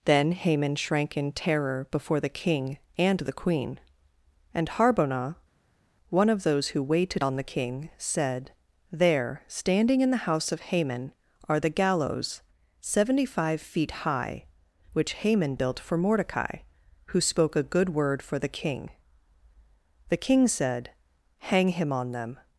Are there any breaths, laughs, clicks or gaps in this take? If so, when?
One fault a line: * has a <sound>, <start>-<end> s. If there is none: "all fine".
all fine